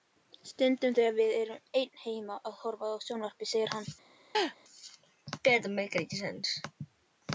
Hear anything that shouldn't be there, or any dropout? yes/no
yes